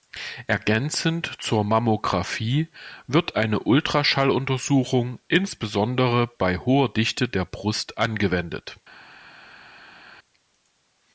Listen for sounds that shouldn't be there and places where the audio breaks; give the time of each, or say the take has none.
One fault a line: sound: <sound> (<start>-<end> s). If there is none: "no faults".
no faults